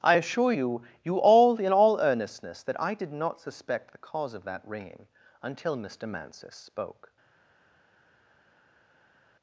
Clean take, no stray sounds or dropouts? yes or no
yes